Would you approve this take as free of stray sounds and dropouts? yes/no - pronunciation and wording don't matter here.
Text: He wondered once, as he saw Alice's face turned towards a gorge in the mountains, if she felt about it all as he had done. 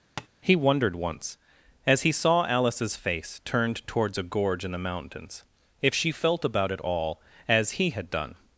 no